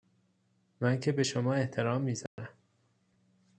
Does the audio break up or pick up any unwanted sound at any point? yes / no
yes